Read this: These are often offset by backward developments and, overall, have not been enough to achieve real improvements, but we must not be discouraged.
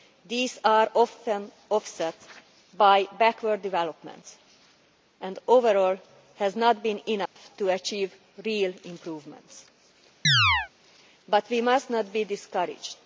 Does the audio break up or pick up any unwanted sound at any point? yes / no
yes